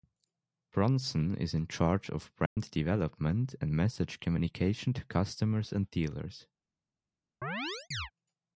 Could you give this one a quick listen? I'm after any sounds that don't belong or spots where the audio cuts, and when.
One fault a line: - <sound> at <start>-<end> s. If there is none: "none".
- dropout at 2.5-2.6 s
- chirp at 7.4-8.1 s